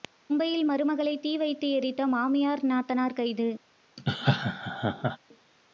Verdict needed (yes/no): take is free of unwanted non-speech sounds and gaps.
no